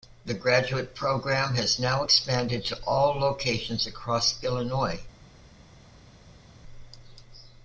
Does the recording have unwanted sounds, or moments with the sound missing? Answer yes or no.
no